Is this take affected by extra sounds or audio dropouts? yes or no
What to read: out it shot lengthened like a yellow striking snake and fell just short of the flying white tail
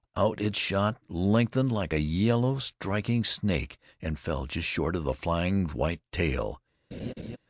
yes